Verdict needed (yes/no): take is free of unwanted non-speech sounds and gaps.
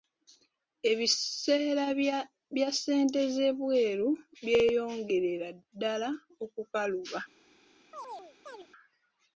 no